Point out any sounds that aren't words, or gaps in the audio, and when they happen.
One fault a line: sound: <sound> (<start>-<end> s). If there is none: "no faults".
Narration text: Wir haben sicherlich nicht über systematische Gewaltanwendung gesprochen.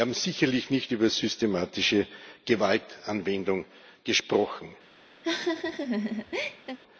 sound: laugh (5.2-6.8 s)